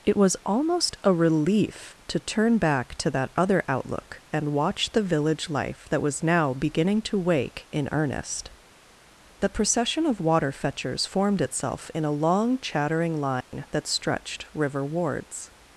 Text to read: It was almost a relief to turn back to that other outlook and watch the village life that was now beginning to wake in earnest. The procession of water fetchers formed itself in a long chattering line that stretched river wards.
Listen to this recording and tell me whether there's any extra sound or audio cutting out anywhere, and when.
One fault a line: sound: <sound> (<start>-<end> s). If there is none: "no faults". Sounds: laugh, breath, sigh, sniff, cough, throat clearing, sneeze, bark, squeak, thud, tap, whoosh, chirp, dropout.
sound: dropout (13.4-13.5 s)